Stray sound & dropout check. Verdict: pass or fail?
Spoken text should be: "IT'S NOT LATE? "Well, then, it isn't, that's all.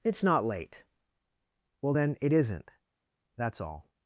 pass